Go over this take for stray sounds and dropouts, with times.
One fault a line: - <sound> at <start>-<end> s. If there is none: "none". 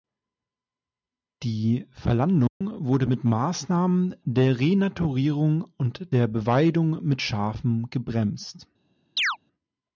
- dropout at 2.5-2.6 s
- chirp at 9.2-9.4 s